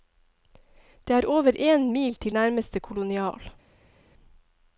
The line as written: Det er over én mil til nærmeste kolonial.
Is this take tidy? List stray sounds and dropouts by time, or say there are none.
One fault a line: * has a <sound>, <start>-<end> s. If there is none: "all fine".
all fine